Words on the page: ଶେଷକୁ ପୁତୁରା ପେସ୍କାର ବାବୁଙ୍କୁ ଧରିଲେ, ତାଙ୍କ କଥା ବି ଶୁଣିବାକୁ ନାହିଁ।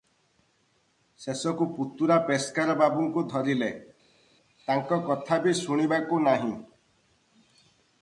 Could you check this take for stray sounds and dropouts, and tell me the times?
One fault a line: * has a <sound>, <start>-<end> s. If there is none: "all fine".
all fine